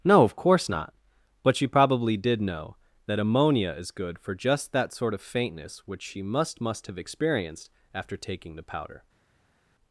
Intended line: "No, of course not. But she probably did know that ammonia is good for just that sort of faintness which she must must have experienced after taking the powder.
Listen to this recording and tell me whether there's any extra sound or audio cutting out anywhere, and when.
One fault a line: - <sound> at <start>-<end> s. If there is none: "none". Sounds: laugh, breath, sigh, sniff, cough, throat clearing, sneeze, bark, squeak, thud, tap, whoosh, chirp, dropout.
none